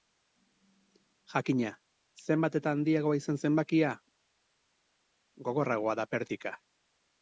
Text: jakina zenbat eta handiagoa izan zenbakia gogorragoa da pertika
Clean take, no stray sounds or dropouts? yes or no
yes